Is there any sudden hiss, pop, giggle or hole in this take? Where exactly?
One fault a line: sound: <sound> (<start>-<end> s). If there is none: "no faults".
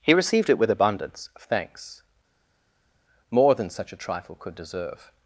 no faults